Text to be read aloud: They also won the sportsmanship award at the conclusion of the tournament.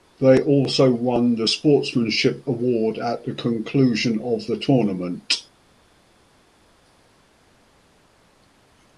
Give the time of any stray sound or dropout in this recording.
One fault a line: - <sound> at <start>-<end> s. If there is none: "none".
none